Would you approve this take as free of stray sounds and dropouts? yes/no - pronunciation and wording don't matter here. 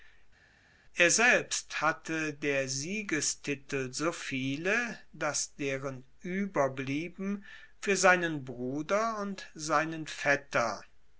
yes